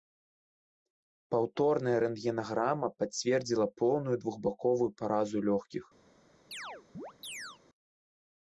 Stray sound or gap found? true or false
true